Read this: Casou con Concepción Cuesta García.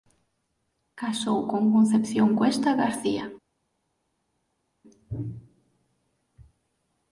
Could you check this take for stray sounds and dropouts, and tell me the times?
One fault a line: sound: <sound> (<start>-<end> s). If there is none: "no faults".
no faults